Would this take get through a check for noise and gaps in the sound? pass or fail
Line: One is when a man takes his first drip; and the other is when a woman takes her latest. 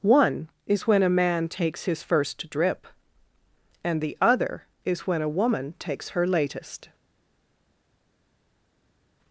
pass